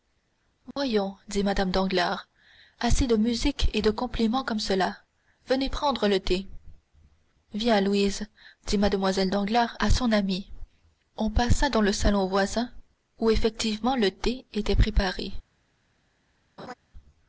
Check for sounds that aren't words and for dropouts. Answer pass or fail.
fail